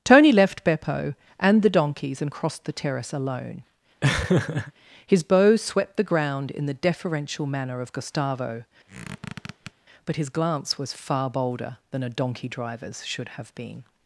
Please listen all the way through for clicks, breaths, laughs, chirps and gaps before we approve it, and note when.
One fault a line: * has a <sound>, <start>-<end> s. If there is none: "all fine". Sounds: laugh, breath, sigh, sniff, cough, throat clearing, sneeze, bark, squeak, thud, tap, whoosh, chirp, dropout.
* has a laugh, 4.0-4.7 s
* has a squeak, 8.9-9.7 s